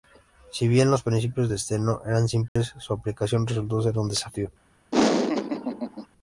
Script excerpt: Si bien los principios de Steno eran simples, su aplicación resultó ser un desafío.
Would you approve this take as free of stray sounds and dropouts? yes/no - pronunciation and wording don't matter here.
no